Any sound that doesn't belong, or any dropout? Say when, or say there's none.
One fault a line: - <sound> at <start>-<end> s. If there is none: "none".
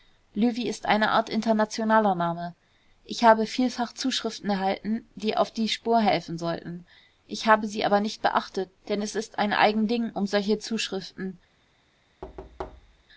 - thud at 12.2-13.0 s